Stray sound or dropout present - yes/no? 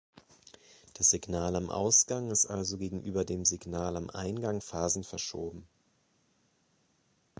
no